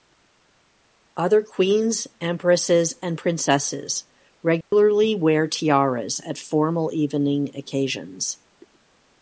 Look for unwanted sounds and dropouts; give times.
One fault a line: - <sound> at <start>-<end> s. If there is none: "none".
- dropout at 4.6-4.7 s